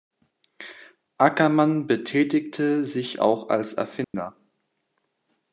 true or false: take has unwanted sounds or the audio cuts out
true